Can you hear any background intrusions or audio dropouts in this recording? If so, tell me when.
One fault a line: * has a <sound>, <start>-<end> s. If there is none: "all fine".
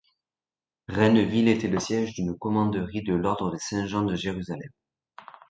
all fine